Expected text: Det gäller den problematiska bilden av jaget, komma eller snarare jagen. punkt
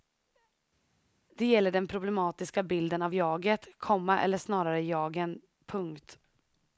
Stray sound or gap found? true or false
false